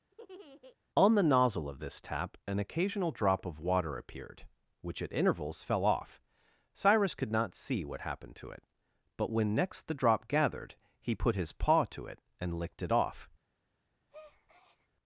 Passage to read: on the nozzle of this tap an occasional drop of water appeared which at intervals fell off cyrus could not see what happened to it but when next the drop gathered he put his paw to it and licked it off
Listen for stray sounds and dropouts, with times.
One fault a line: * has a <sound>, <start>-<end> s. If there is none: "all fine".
* has a laugh, 0.1-0.8 s
* has a breath, 14.1-14.9 s